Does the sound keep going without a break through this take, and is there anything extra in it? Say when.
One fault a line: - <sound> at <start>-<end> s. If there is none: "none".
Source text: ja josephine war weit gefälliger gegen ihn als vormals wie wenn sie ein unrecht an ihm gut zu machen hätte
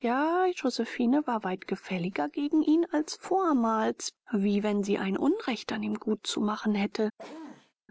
- sneeze at 7.2-7.7 s